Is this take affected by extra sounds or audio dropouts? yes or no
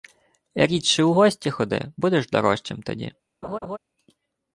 yes